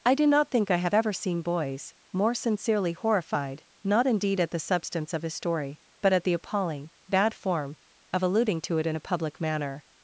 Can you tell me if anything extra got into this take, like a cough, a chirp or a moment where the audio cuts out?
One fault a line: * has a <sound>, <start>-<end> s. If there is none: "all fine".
all fine